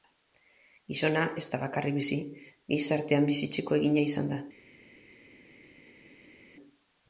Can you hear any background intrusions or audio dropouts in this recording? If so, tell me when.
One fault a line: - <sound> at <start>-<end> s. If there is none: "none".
none